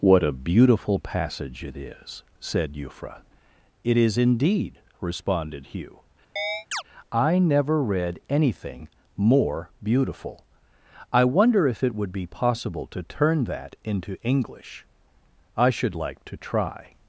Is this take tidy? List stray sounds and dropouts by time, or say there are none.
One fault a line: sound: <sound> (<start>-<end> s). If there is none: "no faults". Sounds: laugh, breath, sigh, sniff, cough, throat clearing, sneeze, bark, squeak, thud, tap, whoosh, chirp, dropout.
sound: chirp (6.4-6.8 s)